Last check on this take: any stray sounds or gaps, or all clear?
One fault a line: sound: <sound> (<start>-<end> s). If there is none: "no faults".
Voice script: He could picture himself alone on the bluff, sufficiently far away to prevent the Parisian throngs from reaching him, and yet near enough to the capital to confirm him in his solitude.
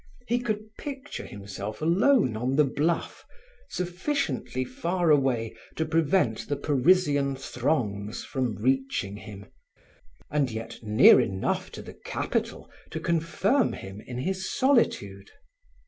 no faults